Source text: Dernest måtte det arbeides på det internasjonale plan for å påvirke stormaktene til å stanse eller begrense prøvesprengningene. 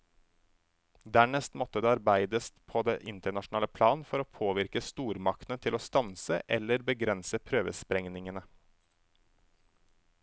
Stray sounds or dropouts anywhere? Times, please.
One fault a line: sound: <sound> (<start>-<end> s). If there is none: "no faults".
no faults